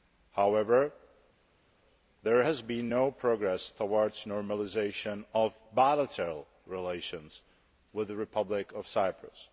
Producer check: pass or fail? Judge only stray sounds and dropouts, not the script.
pass